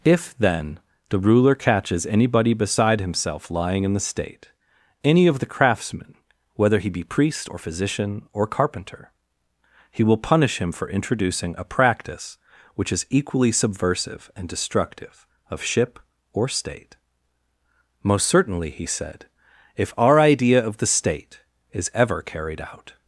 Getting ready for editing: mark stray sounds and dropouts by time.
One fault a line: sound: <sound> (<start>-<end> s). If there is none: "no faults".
no faults